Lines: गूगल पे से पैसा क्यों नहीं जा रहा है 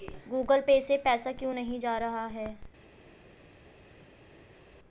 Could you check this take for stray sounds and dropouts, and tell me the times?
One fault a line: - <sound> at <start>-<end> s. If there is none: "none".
none